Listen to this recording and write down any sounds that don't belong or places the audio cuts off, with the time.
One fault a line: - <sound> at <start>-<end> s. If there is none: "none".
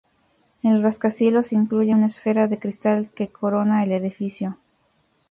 none